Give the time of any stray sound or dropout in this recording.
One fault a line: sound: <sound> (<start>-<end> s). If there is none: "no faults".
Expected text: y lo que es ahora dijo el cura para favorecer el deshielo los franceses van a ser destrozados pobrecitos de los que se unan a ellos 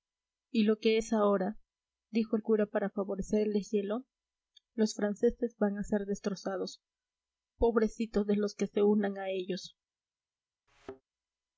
sound: thud (10.7-11.0 s)